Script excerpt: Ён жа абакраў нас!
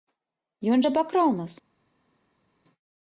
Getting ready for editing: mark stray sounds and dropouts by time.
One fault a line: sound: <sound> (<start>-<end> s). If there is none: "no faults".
no faults